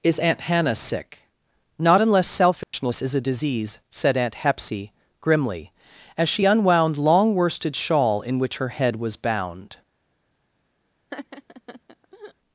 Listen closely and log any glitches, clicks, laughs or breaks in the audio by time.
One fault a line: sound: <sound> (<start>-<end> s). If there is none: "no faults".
sound: dropout (2.6-2.7 s)
sound: laugh (11.1-12.3 s)